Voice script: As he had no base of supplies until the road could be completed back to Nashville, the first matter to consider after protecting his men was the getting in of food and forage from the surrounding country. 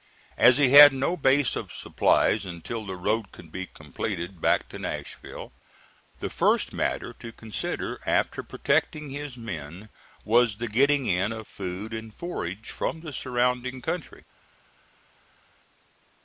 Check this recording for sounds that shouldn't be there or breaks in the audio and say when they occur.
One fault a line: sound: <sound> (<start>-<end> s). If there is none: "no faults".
no faults